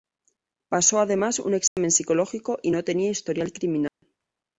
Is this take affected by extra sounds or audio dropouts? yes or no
yes